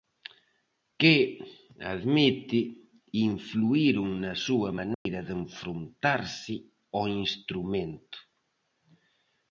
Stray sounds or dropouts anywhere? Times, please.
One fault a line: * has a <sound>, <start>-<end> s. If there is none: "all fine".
* has a dropout, 4.9-5.1 s